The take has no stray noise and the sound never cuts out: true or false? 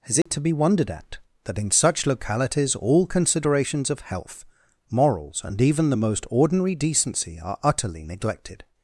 false